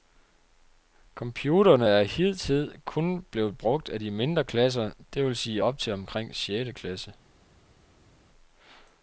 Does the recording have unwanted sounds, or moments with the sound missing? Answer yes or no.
no